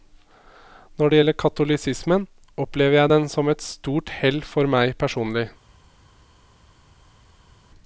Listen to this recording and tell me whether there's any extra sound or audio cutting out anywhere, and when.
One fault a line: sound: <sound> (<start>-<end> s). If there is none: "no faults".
no faults